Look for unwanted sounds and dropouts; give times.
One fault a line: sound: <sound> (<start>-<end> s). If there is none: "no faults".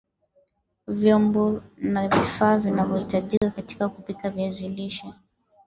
sound: dropout (3.4-3.4 s)